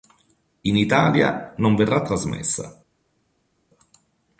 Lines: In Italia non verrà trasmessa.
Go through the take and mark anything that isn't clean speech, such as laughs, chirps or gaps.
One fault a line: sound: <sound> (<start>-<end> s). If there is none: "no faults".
no faults